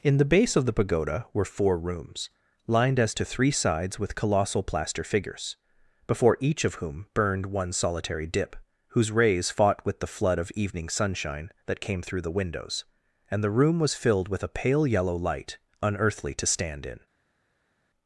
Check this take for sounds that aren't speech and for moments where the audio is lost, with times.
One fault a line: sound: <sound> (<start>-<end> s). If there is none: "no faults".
no faults